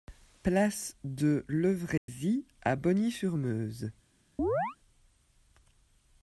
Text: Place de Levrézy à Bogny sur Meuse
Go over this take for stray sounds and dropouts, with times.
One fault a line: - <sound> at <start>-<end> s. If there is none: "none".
- dropout at 2.0-2.1 s
- chirp at 4.4-4.8 s